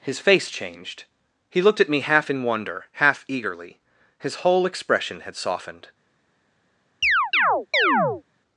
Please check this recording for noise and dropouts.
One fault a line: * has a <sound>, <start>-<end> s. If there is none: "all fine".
* has a chirp, 7.0-8.2 s